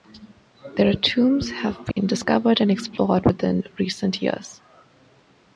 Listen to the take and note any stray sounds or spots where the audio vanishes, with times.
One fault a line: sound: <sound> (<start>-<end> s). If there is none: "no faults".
sound: dropout (1.9-2.0 s)